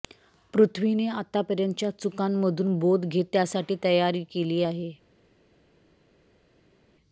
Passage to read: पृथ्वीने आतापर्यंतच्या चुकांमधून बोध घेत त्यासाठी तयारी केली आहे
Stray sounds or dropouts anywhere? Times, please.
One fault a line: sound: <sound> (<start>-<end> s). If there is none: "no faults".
no faults